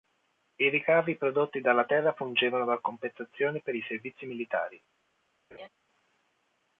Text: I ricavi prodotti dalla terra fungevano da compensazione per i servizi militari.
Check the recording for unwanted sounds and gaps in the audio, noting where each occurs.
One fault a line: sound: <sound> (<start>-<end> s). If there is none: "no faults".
sound: laugh (5.5-5.7 s)